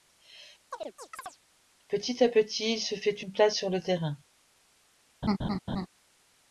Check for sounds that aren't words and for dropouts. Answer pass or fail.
fail